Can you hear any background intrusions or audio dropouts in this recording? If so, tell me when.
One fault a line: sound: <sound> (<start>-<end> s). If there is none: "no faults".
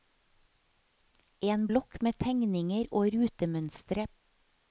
no faults